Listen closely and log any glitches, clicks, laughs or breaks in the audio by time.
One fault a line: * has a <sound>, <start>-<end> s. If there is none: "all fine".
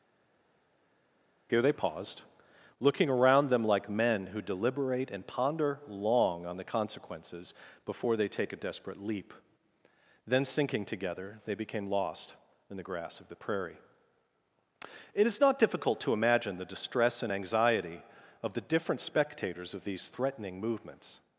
all fine